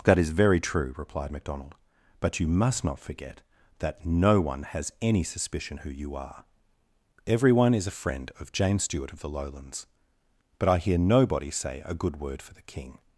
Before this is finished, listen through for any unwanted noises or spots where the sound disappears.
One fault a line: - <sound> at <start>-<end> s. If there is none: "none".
none